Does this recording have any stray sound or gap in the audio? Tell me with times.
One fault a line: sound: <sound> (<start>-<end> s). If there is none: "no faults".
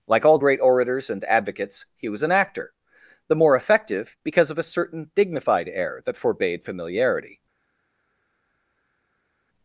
no faults